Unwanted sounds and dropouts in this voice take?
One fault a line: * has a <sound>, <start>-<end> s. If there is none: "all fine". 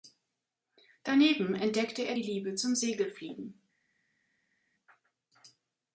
all fine